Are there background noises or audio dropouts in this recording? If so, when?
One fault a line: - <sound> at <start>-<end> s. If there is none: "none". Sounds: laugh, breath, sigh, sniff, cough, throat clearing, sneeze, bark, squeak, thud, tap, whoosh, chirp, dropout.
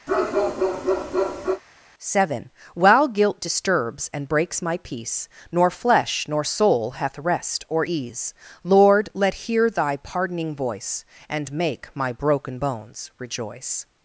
- bark at 0.1-1.6 s